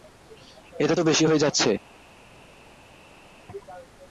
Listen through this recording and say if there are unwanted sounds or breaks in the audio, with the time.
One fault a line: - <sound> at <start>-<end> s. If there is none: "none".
none